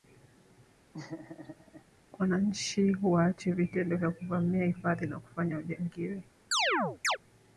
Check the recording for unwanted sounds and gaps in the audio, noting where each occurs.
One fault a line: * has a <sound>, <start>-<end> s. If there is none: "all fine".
* has a laugh, 0.9-1.9 s
* has a chirp, 6.5-7.2 s